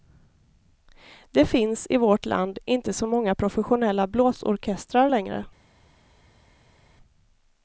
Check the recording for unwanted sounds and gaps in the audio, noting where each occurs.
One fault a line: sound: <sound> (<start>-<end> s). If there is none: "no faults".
no faults